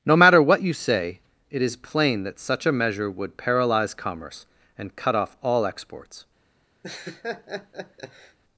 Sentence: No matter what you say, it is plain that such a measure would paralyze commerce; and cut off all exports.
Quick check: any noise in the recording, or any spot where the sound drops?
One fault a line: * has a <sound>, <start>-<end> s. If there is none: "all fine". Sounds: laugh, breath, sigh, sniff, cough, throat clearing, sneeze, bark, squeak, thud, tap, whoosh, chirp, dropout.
* has a laugh, 6.8-8.4 s